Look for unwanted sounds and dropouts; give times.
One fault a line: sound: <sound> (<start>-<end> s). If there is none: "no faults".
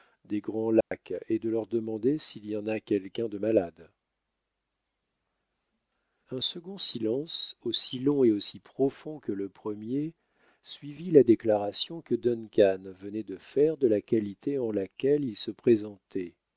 sound: dropout (0.8-0.9 s)